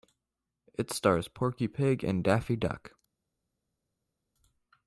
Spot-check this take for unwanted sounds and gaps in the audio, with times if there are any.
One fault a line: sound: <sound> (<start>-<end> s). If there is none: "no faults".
no faults